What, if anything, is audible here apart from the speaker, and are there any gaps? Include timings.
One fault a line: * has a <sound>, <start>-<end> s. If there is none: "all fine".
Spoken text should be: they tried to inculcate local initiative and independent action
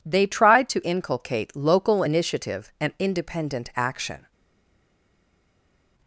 all fine